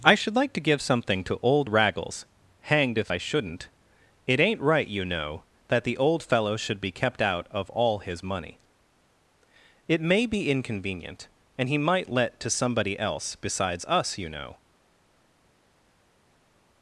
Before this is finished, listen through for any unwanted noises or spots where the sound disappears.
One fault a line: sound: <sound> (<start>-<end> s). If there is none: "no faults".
no faults